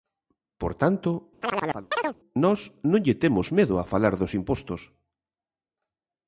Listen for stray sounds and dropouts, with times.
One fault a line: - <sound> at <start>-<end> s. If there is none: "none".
- chirp at 1.4-2.2 s